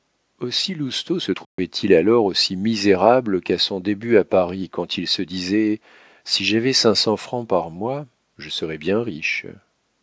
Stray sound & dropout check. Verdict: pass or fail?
fail